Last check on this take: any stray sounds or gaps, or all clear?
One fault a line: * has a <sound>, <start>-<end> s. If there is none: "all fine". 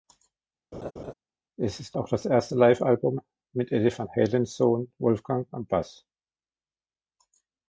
* has a laugh, 0.7-1.1 s